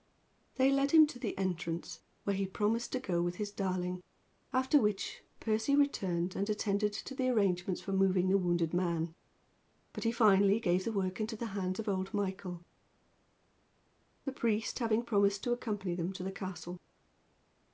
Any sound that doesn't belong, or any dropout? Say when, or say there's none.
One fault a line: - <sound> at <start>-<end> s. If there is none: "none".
none